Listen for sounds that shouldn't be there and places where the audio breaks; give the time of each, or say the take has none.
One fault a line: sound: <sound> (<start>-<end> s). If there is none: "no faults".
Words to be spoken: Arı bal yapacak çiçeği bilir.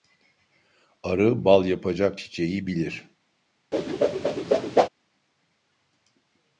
sound: whoosh (3.7-4.9 s)